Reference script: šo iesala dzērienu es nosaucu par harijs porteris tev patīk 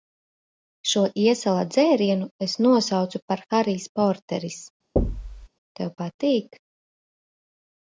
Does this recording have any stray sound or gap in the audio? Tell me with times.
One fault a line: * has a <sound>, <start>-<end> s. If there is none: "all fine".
* has a thud, 5.0-5.5 s